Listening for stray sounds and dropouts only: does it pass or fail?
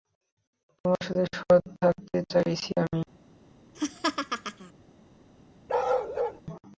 fail